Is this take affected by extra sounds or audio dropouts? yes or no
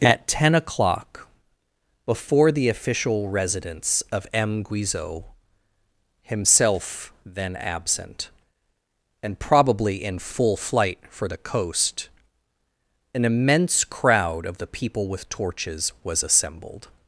no